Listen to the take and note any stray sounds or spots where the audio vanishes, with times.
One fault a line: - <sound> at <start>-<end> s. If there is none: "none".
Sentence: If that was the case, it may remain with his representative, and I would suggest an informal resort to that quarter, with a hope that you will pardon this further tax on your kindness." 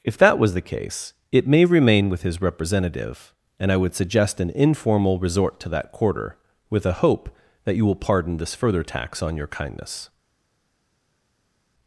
none